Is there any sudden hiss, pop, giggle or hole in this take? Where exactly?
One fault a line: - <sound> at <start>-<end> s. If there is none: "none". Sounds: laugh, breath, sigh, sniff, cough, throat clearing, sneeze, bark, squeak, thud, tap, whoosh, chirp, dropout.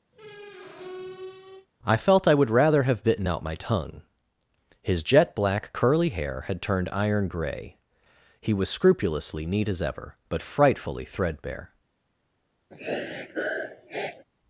- squeak at 0.1-1.7 s
- sniff at 12.7-14.2 s